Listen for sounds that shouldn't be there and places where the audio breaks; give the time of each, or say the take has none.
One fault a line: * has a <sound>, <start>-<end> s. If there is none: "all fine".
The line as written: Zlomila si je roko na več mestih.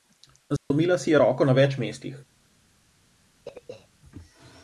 * has a dropout, 0.6-0.7 s
* has a throat clearing, 3.5-3.9 s